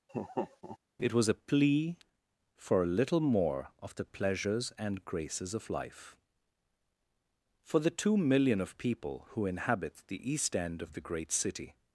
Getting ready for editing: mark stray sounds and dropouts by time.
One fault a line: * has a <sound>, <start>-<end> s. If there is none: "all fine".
* has a laugh, 0.1-0.8 s